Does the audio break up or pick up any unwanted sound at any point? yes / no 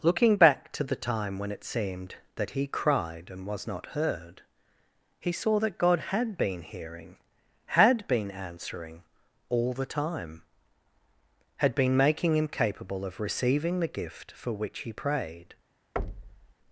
yes